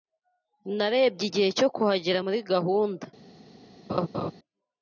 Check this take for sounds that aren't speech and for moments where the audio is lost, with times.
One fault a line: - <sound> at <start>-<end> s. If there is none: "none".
- laugh at 3.9-4.3 s